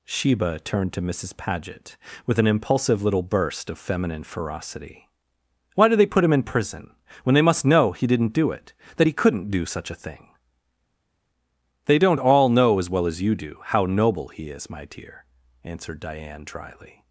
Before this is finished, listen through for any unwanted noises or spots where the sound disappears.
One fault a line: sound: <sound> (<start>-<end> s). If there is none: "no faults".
no faults